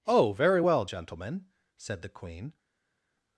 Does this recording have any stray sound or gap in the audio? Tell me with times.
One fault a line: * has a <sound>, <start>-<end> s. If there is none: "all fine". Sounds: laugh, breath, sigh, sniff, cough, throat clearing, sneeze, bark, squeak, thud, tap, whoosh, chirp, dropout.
all fine